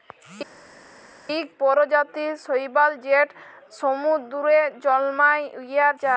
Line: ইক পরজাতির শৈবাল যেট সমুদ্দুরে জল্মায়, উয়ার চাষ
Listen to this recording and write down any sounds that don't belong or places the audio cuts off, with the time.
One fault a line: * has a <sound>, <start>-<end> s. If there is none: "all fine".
all fine